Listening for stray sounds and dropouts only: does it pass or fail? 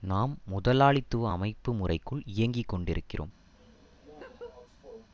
fail